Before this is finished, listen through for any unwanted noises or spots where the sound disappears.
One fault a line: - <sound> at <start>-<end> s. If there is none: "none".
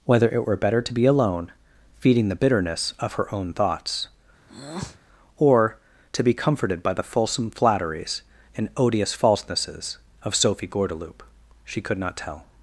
- breath at 4.5-5.0 s